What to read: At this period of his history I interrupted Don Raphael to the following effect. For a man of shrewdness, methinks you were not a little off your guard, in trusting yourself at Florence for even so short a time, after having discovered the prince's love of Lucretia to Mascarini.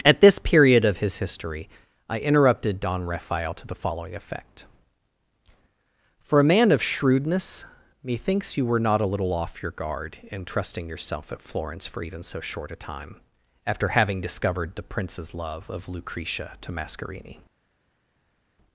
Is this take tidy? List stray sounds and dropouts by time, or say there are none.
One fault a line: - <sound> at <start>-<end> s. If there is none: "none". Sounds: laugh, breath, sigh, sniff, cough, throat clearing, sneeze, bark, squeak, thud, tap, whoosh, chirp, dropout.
none